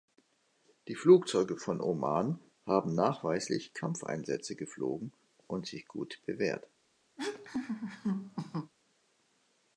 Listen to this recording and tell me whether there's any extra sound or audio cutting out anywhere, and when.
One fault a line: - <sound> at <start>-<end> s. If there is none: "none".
- laugh at 7.2-8.7 s